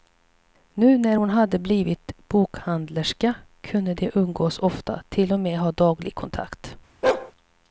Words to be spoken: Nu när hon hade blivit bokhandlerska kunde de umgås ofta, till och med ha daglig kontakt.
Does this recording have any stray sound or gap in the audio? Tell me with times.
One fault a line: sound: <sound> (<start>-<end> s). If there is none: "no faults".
sound: bark (7.0-7.3 s)